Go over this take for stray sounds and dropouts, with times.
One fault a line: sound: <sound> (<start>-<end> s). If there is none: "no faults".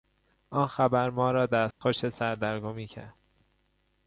sound: dropout (1.7-1.8 s)